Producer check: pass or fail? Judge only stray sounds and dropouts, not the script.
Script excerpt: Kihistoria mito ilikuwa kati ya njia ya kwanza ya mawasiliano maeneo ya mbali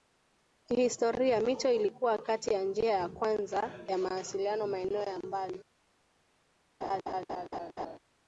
fail